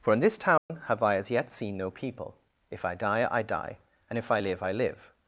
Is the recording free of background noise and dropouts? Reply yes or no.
no